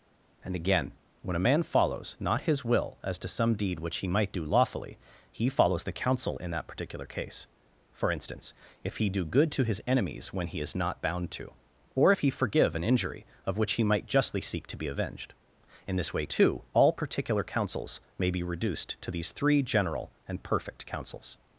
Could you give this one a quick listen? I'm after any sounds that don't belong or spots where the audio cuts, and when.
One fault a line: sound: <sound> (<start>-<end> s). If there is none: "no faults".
no faults